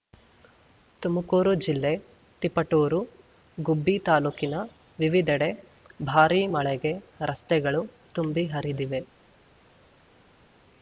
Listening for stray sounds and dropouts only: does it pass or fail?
pass